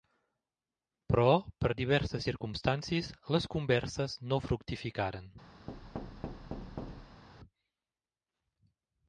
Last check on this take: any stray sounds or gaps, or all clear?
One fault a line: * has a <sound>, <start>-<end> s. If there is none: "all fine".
* has a thud, 5.7-7.2 s